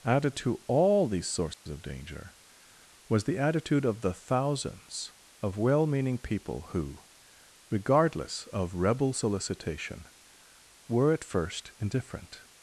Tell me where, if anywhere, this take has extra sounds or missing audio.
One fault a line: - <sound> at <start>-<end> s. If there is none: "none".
- dropout at 1.5-1.7 s